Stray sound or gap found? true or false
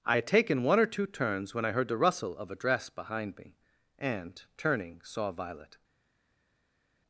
false